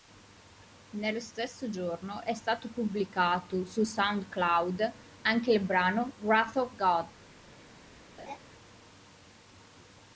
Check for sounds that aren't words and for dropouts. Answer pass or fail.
fail